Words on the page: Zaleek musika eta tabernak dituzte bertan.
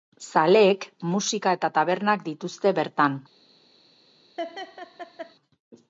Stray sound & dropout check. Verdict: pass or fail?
fail